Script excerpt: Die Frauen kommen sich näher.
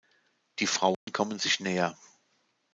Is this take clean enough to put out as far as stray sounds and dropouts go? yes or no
no